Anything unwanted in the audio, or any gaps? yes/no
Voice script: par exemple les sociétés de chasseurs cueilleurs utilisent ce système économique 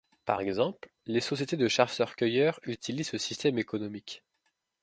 no